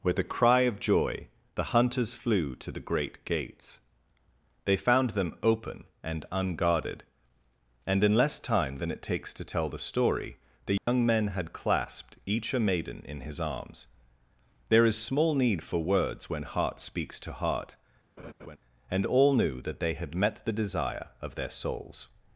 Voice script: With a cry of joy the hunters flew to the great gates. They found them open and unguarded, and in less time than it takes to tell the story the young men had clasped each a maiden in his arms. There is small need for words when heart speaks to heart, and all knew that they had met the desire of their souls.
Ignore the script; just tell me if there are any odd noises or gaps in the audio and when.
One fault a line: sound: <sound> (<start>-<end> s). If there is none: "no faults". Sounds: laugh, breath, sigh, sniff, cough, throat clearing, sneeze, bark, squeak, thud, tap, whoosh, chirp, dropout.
sound: dropout (10.8-10.9 s)
sound: laugh (18.2-18.6 s)